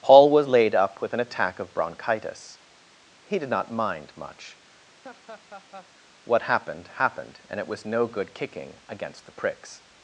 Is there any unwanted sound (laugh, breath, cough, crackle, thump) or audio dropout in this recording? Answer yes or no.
yes